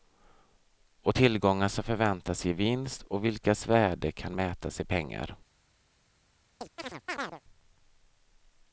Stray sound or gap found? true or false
true